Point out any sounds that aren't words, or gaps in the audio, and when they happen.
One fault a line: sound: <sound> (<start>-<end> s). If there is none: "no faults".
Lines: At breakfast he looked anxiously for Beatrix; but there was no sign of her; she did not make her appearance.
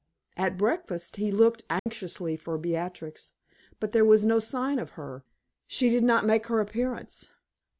sound: dropout (1.8-1.9 s)